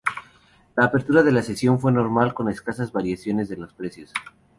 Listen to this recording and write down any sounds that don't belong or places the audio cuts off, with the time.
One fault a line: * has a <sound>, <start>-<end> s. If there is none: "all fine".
all fine